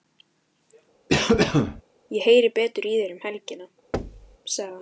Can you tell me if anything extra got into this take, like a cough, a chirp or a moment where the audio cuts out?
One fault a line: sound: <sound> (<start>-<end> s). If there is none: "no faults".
sound: cough (1.1-1.8 s)
sound: thud (3.9-4.4 s)